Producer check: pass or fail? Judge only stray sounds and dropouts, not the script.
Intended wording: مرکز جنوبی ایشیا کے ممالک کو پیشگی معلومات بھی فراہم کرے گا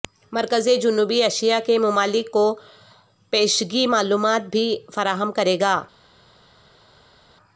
pass